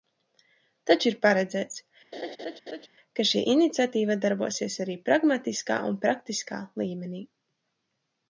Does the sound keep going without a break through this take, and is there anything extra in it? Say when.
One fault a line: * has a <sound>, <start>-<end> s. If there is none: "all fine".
* has a laugh, 2.1-2.9 s